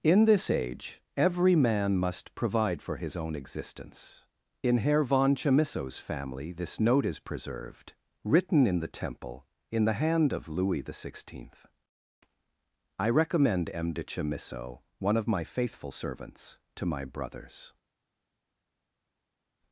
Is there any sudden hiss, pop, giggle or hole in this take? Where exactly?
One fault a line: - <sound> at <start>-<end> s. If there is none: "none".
none